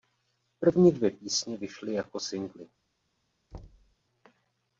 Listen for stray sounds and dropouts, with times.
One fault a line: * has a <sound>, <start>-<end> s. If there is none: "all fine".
* has a thud, 3.5-4.0 s